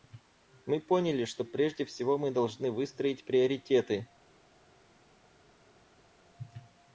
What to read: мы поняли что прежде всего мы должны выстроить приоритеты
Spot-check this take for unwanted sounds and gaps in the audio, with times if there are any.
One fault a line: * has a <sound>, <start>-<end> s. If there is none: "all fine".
all fine